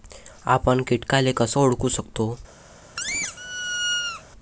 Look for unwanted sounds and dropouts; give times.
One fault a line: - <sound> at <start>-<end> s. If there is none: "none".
- squeak at 3.0-4.2 s